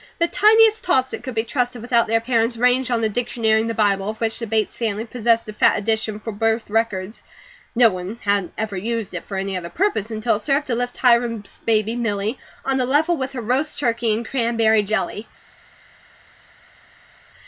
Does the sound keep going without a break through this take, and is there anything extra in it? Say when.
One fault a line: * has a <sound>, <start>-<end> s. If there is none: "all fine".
all fine